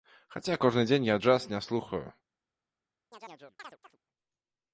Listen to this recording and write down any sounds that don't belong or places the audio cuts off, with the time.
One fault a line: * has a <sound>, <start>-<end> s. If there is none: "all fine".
* has a chirp, 3.1-4.0 s